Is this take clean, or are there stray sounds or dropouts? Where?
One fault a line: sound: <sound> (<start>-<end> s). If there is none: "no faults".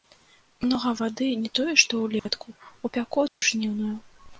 sound: dropout (2.2-2.3 s)
sound: dropout (3.3-3.4 s)